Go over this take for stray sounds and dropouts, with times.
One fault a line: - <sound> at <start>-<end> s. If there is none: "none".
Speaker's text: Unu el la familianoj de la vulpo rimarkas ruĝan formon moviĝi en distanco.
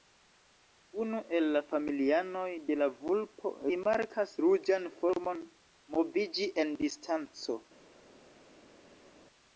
none